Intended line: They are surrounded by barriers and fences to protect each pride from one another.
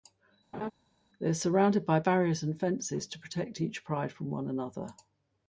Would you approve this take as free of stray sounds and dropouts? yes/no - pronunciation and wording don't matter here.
no